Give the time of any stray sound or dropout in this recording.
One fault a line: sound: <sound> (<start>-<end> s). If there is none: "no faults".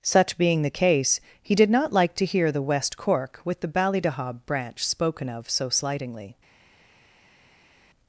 no faults